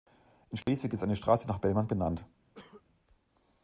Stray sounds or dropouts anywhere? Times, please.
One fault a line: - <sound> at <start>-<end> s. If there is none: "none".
- dropout at 0.6-0.7 s
- cough at 2.5-2.8 s